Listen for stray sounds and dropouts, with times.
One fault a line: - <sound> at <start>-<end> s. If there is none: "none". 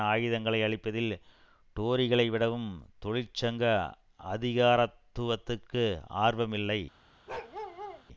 - bark at 7.3-8.0 s